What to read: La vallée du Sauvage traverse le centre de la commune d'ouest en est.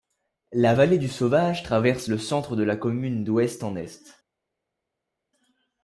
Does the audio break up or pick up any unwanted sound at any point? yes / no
no